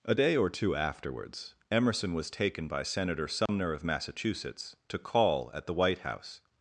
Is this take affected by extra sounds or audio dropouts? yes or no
yes